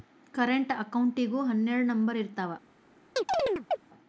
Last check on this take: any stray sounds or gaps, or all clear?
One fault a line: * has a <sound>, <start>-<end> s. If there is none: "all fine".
* has a chirp, 3.2-3.8 s